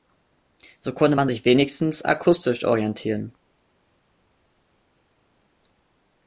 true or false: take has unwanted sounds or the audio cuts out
false